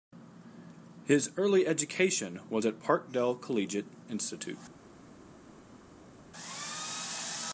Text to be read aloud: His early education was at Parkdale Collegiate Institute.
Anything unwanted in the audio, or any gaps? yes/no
no